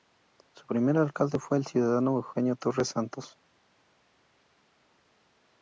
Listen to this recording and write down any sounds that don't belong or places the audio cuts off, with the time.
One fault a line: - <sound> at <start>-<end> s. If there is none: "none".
none